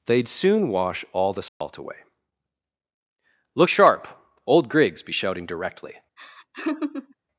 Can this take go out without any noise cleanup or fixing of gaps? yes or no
no